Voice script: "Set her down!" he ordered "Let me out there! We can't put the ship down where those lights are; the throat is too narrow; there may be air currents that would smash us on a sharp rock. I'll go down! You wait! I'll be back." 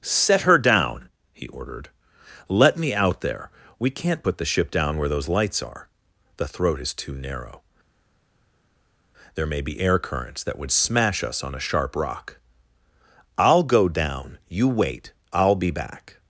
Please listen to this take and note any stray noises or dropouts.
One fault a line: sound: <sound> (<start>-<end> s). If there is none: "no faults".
no faults